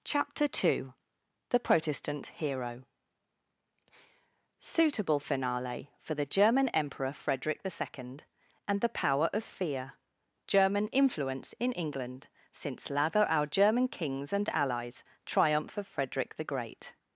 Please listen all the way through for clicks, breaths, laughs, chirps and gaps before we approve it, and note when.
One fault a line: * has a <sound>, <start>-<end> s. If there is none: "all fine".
all fine